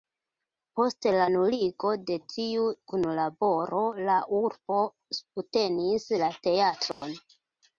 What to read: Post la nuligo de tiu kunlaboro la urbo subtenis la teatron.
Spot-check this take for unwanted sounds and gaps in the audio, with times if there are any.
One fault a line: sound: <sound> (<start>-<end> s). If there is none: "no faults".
sound: dropout (6.9-7.0 s)